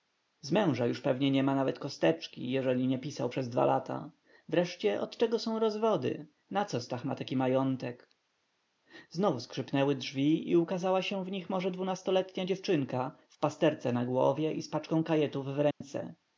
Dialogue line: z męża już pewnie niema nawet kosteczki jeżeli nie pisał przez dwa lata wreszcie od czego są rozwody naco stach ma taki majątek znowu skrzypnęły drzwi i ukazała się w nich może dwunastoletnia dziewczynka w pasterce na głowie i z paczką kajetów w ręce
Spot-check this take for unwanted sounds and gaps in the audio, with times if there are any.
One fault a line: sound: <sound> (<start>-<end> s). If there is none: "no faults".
sound: dropout (15.7-15.8 s)